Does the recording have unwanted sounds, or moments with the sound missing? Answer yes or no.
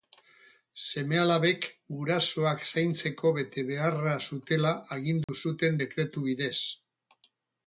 yes